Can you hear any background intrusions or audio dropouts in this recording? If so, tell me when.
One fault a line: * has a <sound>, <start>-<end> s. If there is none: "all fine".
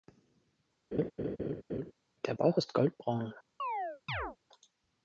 * has a laugh, 0.9-1.9 s
* has a chirp, 3.6-4.4 s